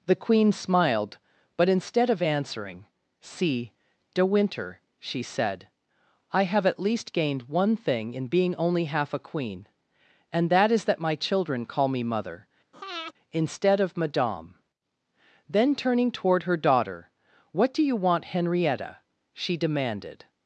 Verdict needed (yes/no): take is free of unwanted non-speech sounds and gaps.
no